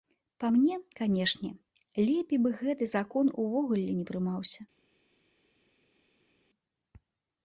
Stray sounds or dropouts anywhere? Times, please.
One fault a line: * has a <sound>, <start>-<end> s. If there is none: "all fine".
all fine